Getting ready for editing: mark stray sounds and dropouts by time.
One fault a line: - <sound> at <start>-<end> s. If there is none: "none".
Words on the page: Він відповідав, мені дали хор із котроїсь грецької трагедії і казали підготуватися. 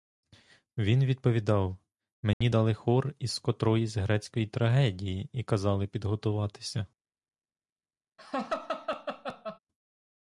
- dropout at 2.3-2.4 s
- laugh at 8.2-9.6 s